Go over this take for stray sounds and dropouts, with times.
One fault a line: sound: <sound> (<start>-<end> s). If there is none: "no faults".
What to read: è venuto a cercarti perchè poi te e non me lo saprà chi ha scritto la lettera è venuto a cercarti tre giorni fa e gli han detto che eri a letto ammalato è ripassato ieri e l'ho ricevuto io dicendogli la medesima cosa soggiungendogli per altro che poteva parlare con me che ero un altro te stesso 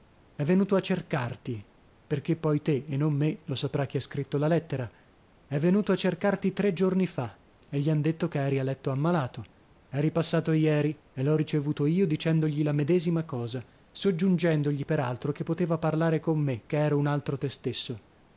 no faults